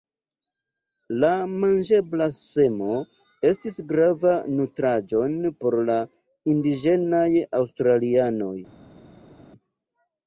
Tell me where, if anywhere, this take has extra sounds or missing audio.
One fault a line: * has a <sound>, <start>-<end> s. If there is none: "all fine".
all fine